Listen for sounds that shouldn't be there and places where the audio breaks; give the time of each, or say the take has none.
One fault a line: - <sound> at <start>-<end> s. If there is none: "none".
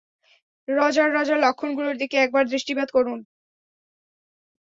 none